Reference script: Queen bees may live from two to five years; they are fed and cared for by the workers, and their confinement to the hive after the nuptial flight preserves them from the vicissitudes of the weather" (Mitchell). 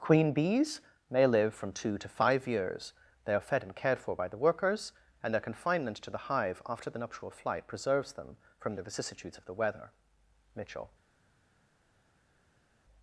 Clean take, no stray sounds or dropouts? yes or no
yes